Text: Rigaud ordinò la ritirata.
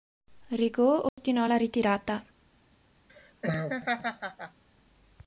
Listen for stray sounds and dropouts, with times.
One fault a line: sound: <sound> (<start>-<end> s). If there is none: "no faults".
sound: dropout (1.1-1.2 s)
sound: laugh (3.1-4.6 s)